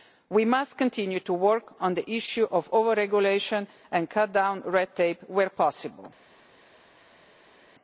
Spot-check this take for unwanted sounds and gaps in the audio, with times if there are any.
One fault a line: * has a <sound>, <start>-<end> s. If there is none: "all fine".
all fine